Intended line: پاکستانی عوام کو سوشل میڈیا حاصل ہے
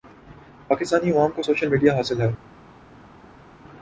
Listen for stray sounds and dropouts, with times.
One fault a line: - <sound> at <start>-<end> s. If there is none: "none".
none